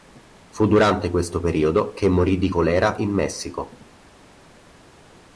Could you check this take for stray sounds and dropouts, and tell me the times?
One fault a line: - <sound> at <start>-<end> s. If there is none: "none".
none